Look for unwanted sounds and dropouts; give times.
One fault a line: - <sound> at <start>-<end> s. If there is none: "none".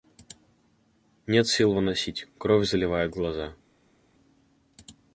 none